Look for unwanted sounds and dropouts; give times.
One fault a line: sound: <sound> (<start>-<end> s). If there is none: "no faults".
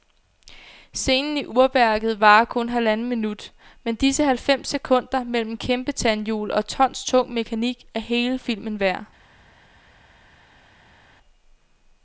no faults